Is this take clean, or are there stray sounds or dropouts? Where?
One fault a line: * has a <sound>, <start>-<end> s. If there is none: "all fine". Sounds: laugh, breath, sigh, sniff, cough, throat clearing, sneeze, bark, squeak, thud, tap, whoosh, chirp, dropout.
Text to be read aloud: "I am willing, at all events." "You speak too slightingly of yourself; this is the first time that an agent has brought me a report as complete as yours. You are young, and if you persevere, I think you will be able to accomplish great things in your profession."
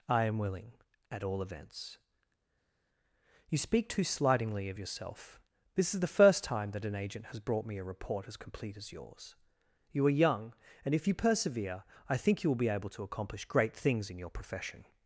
all fine